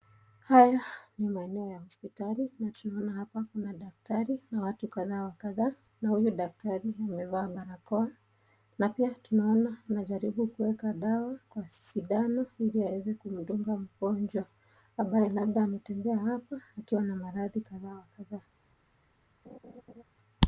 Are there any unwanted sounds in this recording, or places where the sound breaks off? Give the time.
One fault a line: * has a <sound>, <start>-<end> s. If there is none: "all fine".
* has a laugh, 19.4-20.0 s